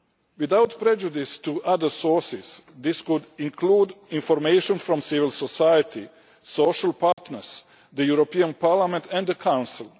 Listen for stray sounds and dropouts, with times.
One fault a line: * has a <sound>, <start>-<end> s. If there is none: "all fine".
* has a dropout, 7.1-7.2 s